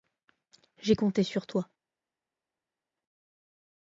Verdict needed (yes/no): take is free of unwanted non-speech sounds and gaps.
yes